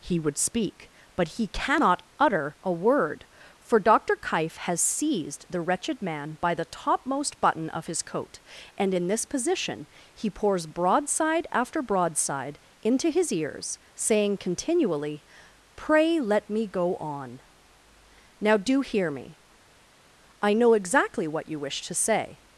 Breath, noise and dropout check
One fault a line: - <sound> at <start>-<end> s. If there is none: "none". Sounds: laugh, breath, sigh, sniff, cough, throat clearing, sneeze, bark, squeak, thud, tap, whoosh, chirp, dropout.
none